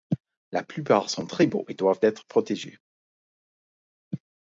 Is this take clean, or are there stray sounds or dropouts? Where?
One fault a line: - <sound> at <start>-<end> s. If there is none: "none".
none